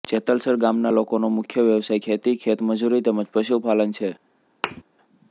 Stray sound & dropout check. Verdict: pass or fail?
fail